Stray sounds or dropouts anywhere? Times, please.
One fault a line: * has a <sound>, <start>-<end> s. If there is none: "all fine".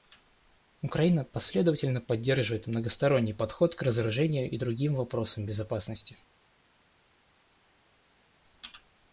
all fine